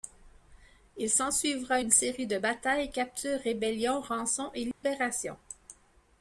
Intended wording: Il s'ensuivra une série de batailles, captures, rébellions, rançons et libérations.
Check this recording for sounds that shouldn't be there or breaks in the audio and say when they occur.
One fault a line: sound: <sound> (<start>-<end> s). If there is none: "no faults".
sound: dropout (4.7-4.8 s)